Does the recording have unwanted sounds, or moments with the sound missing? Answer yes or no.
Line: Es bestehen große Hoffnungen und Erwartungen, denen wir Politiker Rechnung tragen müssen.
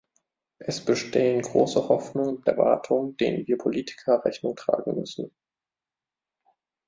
no